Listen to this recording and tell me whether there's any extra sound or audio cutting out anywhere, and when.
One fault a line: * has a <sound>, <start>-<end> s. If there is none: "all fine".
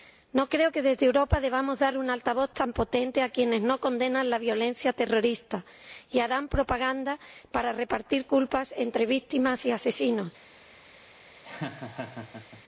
* has a laugh, 11.4-12.6 s